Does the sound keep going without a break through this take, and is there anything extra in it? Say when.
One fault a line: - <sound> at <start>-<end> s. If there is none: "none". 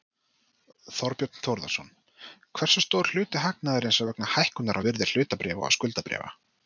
none